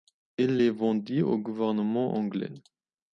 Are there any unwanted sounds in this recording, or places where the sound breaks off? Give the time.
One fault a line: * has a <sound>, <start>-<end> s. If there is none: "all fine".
all fine